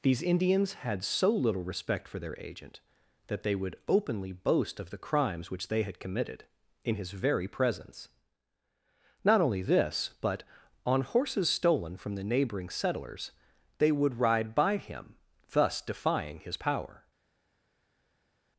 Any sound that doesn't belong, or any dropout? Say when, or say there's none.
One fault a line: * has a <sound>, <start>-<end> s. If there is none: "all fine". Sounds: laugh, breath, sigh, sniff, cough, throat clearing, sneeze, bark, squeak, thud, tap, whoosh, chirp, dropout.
all fine